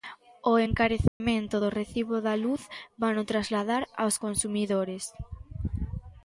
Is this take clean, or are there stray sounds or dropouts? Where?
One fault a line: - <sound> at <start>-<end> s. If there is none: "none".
- dropout at 1.1-1.2 s